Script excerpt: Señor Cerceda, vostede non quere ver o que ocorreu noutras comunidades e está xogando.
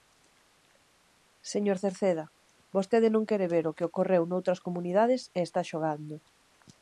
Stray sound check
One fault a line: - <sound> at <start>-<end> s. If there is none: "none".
none